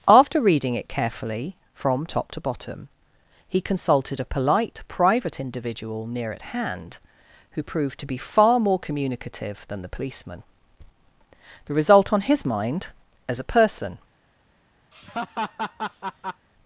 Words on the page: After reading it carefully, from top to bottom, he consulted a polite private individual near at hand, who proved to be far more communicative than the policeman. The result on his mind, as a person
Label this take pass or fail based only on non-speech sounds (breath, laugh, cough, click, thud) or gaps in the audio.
fail